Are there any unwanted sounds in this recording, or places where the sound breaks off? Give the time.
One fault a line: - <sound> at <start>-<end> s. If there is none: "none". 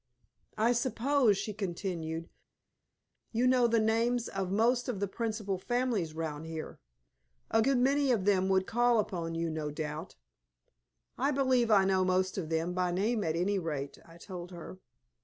none